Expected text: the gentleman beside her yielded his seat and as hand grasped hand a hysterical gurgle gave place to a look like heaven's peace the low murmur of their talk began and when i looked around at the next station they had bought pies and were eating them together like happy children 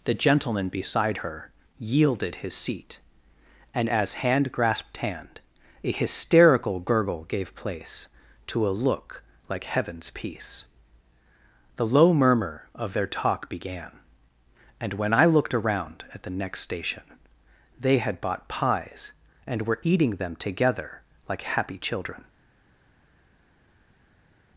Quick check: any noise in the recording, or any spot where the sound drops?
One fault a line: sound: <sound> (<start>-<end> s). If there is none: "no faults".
no faults